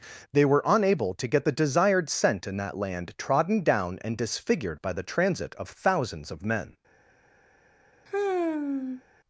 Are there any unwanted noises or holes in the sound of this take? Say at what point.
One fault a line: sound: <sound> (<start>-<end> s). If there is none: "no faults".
sound: sigh (8.1-9.0 s)